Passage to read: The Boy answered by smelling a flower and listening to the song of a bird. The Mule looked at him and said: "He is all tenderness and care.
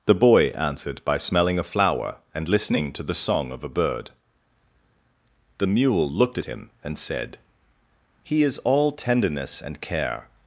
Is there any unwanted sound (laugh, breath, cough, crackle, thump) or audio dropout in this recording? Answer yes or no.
no